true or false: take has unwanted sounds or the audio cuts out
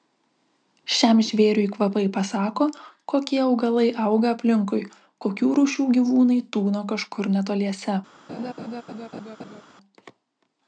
true